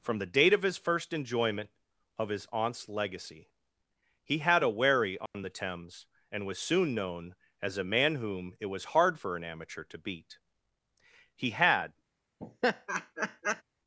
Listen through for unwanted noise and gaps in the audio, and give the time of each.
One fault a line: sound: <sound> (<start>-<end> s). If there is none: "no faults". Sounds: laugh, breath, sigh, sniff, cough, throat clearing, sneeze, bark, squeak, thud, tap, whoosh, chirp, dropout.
sound: dropout (5.3-5.3 s)
sound: laugh (12.4-13.6 s)